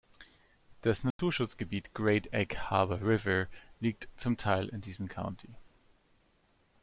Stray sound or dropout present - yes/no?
yes